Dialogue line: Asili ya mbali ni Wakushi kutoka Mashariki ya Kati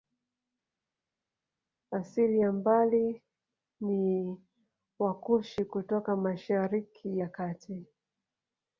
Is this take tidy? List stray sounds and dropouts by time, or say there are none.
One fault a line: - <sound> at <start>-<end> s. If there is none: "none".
none